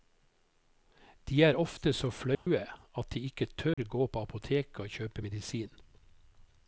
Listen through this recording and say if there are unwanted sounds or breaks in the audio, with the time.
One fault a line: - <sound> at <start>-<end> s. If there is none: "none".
- dropout at 2.3-2.5 s
- dropout at 3.7-3.8 s